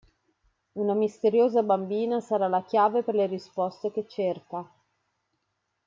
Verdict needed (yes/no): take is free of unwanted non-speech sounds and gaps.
yes